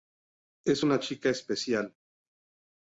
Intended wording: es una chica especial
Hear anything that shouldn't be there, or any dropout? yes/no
no